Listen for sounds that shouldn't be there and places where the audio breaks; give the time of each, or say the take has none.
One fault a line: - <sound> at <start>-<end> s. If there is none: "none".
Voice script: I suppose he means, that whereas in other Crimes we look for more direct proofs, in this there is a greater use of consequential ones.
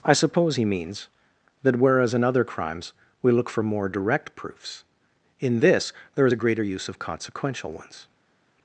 none